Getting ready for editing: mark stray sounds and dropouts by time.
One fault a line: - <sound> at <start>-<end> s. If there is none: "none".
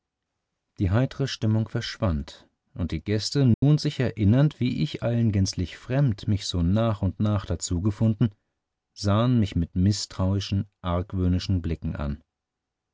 - dropout at 3.5-3.6 s